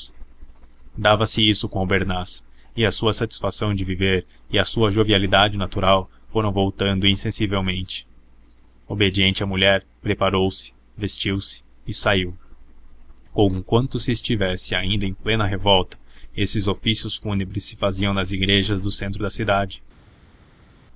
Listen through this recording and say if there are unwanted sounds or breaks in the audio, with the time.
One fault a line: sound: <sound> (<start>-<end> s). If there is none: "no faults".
no faults